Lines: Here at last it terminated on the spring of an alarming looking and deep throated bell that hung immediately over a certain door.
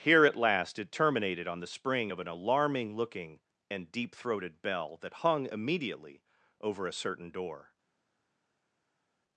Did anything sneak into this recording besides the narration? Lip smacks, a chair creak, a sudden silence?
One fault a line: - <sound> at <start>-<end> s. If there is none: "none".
none